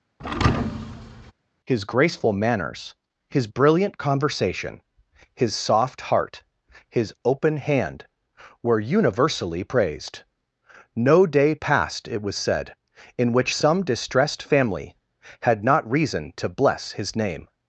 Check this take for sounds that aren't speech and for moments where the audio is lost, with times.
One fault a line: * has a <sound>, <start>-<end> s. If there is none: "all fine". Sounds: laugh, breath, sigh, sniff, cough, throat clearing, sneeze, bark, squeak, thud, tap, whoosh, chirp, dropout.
* has a thud, 0.2-1.3 s